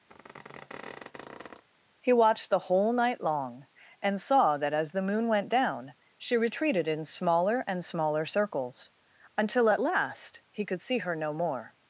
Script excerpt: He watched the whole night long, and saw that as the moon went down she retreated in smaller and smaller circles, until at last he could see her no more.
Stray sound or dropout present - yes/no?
yes